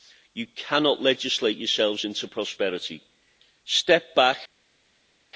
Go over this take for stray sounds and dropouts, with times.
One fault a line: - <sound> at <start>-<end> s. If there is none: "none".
none